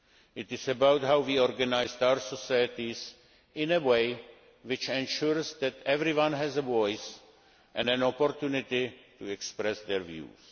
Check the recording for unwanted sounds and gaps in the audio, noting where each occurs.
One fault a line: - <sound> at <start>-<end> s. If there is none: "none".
none